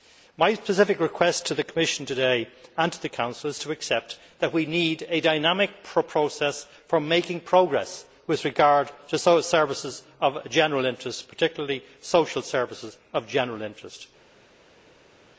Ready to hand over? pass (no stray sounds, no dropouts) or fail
pass